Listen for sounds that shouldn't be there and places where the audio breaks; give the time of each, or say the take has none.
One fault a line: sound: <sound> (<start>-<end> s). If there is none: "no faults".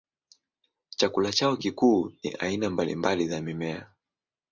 no faults